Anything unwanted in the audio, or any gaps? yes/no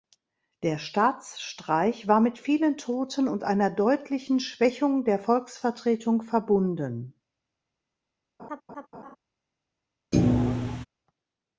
yes